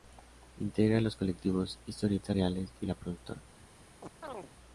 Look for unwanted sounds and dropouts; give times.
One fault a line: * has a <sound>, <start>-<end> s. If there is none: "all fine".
* has a chirp, 4.0-4.5 s